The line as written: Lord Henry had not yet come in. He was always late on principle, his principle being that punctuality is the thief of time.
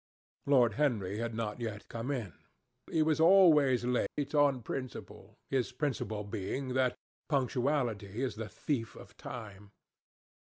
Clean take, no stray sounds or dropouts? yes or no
no